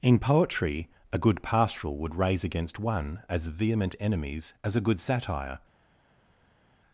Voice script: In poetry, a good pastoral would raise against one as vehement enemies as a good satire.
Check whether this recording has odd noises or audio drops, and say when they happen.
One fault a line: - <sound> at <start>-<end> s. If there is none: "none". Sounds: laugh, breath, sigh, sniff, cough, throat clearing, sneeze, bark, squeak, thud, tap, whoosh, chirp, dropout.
none